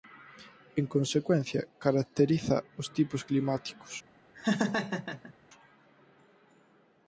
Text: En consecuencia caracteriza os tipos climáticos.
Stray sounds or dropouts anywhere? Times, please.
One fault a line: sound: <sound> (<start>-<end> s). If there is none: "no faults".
sound: laugh (4.3-5.3 s)